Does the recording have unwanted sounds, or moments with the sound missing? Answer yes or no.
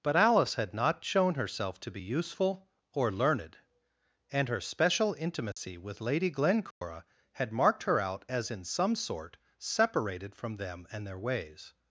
yes